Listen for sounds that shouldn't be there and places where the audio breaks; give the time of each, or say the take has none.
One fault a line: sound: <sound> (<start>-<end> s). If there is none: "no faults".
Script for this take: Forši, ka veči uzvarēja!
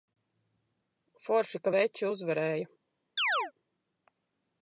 sound: chirp (3.2-3.5 s)